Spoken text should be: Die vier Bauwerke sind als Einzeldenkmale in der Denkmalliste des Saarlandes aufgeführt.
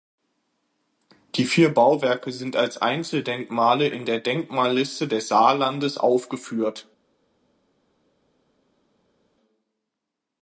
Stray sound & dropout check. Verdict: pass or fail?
pass